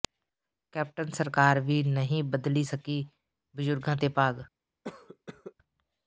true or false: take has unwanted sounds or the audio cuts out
true